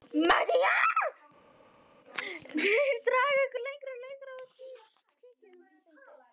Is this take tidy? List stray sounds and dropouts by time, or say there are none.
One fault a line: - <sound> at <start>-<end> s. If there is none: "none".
none